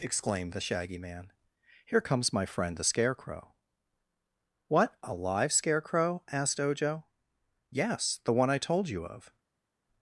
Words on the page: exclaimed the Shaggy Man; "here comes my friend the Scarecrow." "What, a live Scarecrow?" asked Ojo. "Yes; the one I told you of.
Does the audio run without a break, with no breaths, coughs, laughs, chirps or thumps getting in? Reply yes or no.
yes